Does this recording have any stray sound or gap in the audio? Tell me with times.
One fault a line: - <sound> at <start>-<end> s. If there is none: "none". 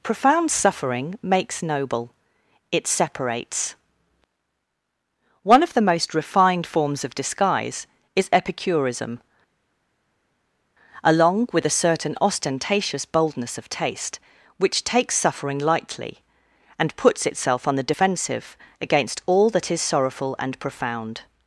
none